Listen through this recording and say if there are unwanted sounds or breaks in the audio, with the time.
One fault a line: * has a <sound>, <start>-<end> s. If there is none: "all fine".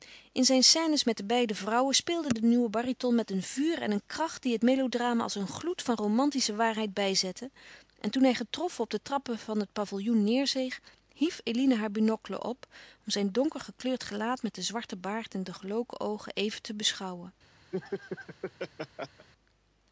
* has a laugh, 17.7-19.3 s